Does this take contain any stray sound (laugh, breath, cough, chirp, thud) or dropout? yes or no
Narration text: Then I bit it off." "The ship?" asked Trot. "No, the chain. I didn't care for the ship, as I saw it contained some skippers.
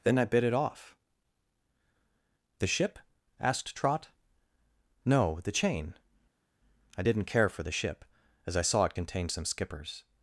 no